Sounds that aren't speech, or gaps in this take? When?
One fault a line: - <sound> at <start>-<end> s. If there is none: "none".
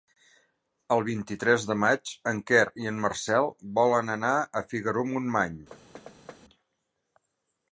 - thud at 5.7-6.4 s